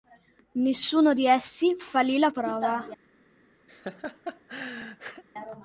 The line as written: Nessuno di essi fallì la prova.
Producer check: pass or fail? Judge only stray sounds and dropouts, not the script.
fail